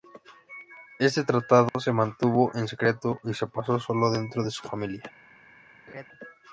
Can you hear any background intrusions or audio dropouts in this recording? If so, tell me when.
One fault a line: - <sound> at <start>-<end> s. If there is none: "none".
- dropout at 1.7-1.7 s
- laugh at 5.9-6.1 s